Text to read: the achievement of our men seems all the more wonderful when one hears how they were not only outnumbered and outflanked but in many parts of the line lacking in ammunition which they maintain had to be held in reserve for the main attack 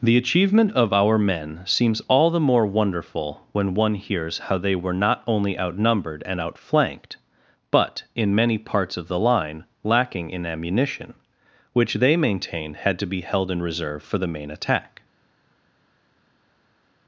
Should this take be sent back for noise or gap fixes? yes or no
no